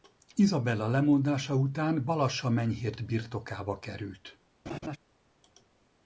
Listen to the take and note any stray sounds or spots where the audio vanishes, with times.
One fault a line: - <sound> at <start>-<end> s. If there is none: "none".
- laugh at 4.7-5.0 s